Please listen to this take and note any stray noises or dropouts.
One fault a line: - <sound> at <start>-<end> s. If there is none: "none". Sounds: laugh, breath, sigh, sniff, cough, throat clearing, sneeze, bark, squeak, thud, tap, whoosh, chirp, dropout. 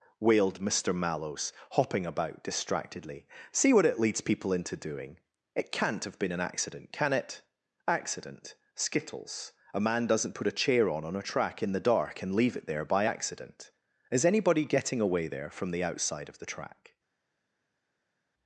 none